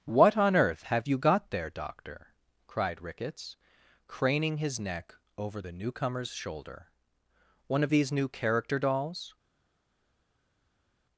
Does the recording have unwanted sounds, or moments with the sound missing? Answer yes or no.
no